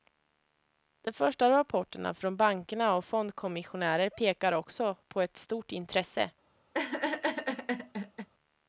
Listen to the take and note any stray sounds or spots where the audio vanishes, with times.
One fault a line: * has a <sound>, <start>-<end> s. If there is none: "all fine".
* has a laugh, 6.7-8.3 s